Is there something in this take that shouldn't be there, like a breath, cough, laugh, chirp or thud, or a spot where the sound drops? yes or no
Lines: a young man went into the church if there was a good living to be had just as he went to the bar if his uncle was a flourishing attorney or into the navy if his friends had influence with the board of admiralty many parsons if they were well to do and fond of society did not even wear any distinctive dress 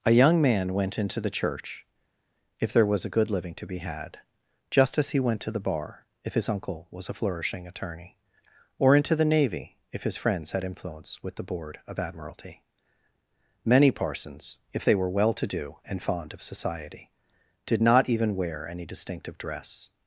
no